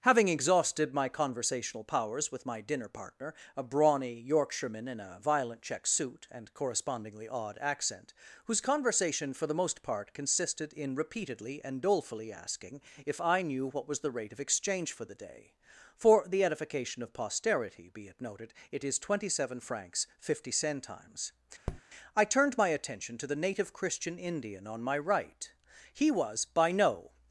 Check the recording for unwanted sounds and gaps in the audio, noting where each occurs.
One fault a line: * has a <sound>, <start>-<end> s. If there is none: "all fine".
* has a tap, 21.7-21.8 s